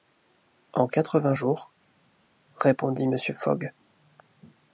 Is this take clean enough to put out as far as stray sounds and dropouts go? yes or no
yes